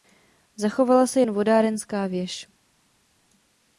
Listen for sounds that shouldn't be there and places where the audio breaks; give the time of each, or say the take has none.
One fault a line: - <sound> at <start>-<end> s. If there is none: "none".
none